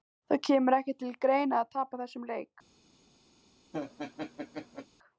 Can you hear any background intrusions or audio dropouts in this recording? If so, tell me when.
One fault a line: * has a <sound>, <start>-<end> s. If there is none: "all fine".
* has a laugh, 3.7-4.9 s